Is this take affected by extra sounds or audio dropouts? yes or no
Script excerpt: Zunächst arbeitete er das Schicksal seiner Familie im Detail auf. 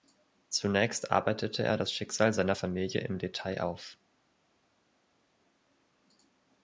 no